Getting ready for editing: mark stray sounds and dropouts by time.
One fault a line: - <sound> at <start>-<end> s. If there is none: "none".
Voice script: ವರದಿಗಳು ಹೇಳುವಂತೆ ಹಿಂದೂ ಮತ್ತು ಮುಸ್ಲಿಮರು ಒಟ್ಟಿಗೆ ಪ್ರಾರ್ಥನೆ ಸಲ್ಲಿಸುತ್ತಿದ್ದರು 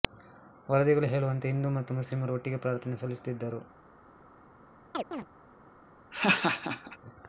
- chirp at 4.9-5.3 s
- laugh at 6.1-7.0 s